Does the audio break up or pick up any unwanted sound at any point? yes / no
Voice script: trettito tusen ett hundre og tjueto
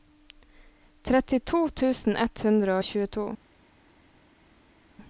no